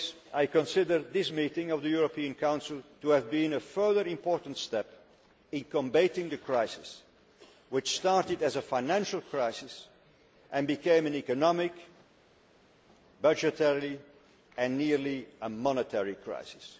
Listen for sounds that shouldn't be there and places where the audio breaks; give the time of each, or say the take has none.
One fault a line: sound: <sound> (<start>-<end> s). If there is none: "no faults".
no faults